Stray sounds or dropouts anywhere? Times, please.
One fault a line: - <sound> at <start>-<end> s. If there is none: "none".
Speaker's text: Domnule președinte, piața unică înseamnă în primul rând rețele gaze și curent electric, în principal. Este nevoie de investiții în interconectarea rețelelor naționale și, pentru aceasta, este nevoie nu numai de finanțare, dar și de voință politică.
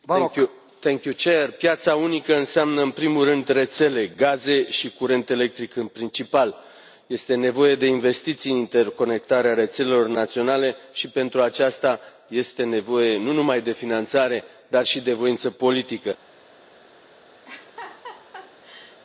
- laugh at 17.4-19.0 s